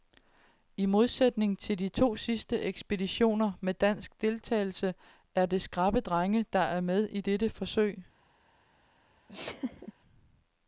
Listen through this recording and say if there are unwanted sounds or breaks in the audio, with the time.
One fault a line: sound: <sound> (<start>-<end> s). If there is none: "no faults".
sound: laugh (9.3-9.9 s)